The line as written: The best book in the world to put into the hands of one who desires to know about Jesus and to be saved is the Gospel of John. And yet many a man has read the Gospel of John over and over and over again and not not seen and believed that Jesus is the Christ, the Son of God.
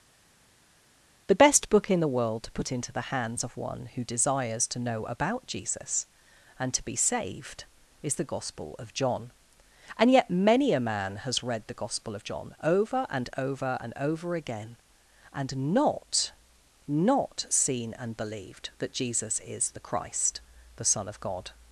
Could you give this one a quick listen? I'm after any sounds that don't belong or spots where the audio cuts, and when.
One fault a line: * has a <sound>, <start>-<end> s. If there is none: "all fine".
all fine